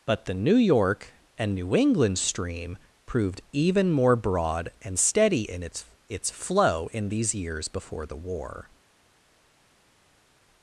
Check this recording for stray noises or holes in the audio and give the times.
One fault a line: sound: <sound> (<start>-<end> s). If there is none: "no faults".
no faults